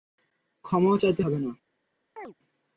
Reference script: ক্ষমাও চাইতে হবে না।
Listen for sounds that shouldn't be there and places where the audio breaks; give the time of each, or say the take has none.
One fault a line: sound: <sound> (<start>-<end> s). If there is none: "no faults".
sound: chirp (2.2-2.3 s)